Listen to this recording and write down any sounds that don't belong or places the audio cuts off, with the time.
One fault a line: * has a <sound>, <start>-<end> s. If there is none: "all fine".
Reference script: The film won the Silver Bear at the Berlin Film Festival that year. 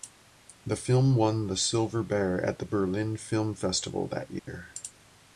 * has a dropout, 4.4-4.5 s